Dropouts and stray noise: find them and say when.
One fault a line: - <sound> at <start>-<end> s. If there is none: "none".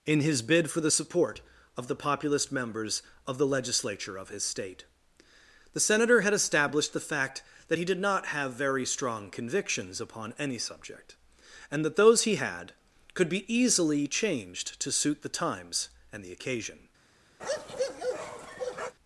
- bark at 17.4-18.9 s